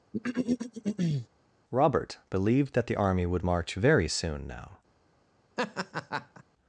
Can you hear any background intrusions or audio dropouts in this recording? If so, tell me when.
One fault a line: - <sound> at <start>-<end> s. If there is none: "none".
- throat clearing at 0.1-1.3 s
- laugh at 5.6-6.4 s